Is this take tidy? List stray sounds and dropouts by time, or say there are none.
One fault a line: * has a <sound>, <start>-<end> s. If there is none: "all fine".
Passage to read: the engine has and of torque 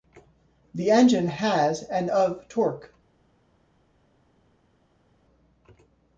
all fine